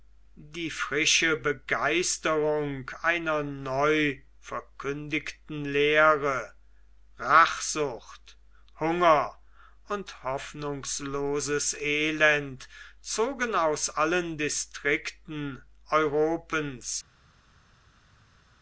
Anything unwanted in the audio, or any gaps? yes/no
no